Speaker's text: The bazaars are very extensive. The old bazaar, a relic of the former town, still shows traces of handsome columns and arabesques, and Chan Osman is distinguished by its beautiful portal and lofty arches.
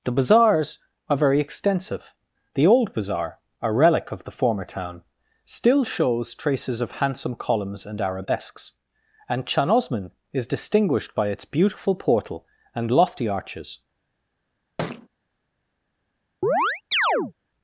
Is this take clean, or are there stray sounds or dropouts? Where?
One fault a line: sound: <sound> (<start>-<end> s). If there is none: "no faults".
sound: thud (14.8-15.1 s)
sound: chirp (16.4-17.3 s)